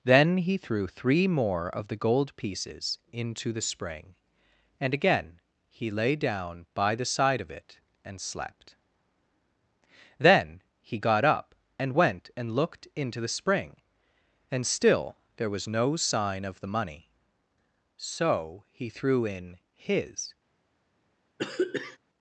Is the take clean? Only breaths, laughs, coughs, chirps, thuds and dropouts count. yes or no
no